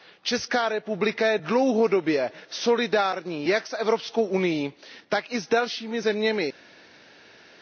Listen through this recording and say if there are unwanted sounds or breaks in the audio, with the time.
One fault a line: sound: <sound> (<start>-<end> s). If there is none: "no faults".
no faults